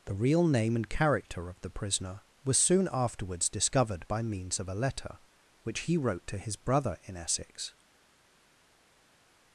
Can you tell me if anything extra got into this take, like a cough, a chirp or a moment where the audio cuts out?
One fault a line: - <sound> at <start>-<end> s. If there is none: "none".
none